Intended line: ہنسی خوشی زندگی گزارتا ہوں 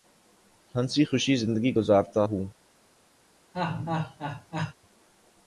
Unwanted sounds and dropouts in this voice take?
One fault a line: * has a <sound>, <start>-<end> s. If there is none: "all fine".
* has a laugh, 3.5-4.7 s